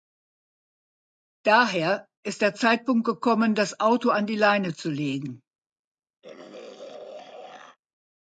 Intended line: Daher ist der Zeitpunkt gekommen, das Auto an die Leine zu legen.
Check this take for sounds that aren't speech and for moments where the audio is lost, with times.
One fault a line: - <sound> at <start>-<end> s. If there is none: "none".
- throat clearing at 6.2-7.8 s